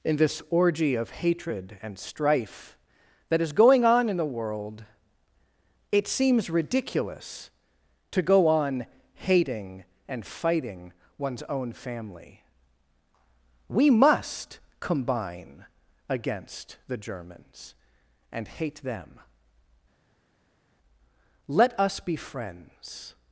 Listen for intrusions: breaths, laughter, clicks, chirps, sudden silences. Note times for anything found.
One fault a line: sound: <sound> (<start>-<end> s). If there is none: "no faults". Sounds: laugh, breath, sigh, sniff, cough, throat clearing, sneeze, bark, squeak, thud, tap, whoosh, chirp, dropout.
no faults